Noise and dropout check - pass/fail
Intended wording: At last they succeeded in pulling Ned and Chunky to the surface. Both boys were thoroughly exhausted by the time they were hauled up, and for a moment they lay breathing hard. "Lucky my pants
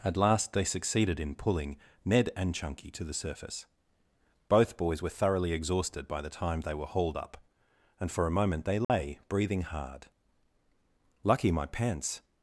fail